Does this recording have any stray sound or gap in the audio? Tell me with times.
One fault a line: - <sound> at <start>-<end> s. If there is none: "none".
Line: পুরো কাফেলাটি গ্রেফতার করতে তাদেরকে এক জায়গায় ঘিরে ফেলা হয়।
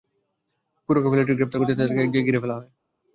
none